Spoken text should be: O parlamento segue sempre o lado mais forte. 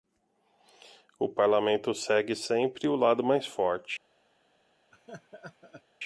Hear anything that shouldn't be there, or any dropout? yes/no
yes